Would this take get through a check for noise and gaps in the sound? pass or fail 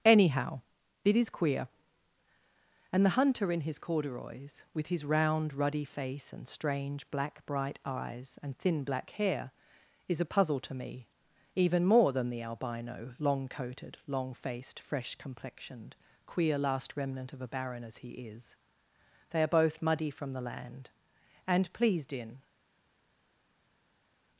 pass